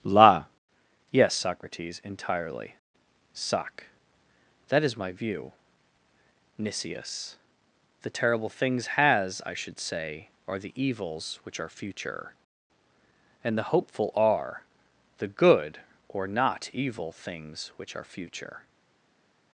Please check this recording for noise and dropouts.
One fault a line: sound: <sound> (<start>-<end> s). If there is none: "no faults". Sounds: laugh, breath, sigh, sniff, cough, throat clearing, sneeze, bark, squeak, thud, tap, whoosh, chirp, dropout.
no faults